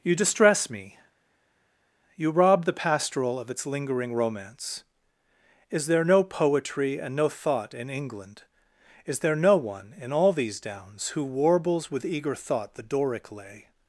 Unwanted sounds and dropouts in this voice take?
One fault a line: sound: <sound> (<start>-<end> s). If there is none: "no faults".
no faults